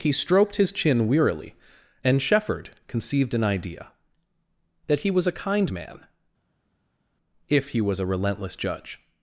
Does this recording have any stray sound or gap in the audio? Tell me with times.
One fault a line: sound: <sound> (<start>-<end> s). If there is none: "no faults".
no faults